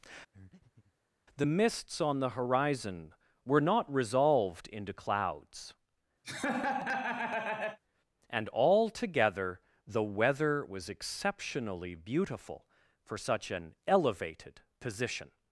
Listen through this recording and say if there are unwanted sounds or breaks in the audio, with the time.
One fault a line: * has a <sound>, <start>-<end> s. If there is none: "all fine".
* has a breath, 0.3-0.9 s
* has a laugh, 6.2-7.8 s